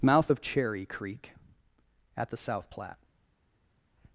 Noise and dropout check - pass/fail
pass